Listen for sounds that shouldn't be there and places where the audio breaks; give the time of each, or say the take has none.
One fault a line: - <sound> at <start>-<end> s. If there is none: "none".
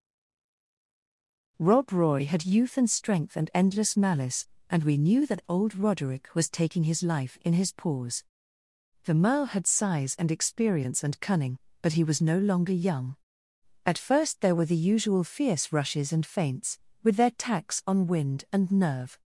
none